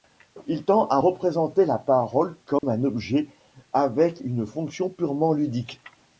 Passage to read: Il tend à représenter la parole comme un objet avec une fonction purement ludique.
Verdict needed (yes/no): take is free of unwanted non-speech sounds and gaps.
no